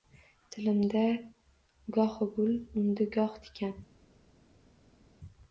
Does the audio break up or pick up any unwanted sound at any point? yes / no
no